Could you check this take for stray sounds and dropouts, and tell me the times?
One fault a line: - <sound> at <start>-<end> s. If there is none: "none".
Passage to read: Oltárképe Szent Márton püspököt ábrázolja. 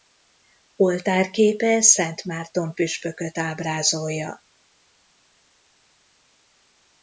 none